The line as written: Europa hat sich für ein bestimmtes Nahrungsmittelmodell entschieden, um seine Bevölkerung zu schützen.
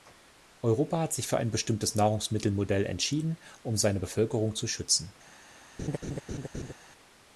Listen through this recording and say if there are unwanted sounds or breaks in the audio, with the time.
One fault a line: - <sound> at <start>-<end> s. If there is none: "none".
- laugh at 5.8-6.7 s